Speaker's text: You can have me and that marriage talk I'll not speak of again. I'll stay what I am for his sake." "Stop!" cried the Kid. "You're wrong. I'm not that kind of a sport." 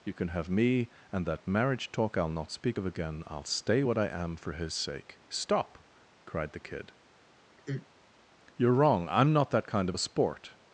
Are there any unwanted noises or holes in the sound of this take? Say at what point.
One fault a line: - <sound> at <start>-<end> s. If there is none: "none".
- sigh at 7.6-7.9 s